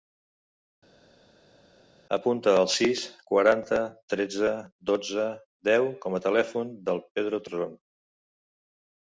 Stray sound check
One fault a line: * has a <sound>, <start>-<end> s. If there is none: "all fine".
all fine